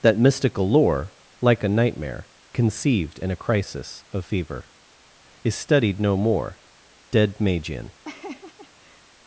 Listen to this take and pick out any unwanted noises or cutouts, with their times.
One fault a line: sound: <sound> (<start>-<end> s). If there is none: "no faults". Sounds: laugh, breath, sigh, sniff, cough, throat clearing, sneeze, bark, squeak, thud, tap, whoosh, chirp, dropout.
sound: laugh (8.0-9.1 s)